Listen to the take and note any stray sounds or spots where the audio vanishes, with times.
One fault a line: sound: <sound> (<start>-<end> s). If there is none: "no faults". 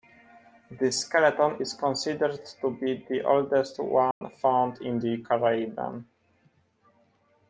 sound: dropout (4.1-4.2 s)